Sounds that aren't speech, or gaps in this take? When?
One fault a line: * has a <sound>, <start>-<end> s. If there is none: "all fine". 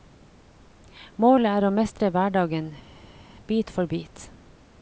all fine